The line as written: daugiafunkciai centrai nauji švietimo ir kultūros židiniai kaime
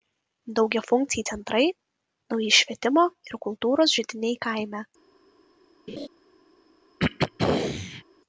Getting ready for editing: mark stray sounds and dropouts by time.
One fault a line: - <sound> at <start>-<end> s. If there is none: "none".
- laugh at 5.9-6.1 s
- throat clearing at 7.0-8.0 s